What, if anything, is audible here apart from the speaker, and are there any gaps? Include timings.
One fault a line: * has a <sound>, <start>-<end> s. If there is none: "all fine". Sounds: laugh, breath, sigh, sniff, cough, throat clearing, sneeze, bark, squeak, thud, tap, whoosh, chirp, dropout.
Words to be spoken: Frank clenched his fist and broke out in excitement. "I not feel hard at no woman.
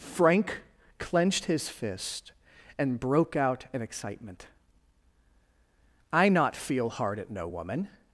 all fine